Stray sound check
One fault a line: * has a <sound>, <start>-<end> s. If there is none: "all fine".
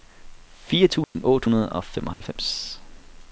* has a dropout, 1.0-1.1 s
* has a dropout, 2.1-2.2 s